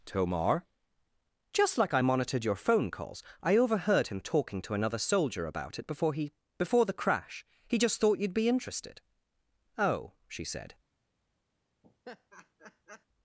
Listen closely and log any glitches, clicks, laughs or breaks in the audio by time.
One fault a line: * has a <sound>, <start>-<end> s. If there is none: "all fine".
* has a laugh, 11.8-13.1 s